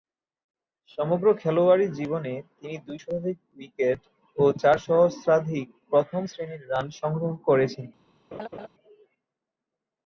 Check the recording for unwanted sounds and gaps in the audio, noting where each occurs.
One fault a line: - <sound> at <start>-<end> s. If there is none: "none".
- laugh at 8.3-8.7 s